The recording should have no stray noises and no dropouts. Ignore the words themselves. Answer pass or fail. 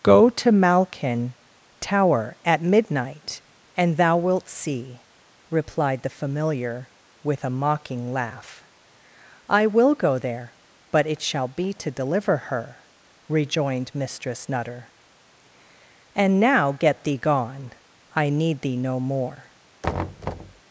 fail